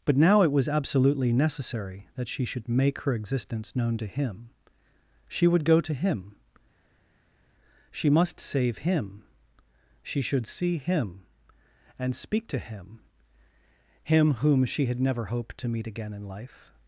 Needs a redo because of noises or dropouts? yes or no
no